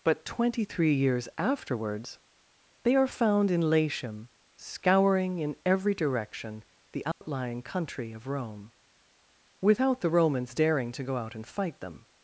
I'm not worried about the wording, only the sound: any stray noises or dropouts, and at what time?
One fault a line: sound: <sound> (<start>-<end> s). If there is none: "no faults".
sound: dropout (7.1-7.2 s)